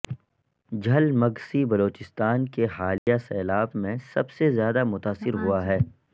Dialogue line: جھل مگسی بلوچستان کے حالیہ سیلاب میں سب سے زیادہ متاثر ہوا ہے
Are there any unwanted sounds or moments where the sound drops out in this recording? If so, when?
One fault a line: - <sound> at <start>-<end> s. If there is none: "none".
- dropout at 3.0-3.1 s